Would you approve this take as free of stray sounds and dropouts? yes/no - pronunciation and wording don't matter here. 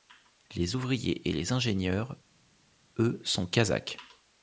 yes